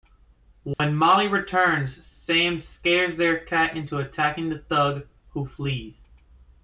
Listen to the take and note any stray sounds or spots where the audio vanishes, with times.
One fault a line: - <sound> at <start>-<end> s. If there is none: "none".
- dropout at 0.7-0.8 s